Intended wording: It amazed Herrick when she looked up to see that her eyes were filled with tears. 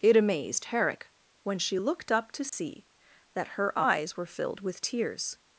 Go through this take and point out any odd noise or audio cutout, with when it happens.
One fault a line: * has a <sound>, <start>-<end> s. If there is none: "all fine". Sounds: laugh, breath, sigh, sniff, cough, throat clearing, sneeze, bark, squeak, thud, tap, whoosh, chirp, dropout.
* has a dropout, 2.5-2.5 s